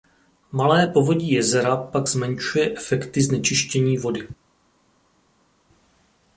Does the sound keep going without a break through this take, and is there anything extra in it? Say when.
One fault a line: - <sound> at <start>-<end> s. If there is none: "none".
none